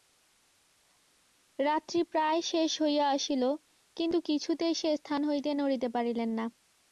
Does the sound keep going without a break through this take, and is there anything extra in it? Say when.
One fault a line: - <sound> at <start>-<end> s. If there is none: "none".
none